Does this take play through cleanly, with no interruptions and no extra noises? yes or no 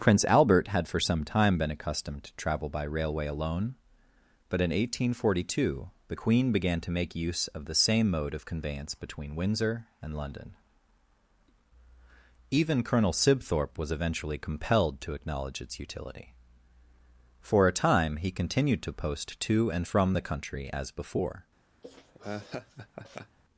no